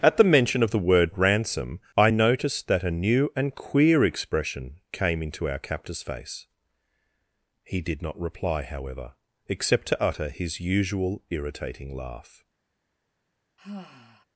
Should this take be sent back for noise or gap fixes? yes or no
yes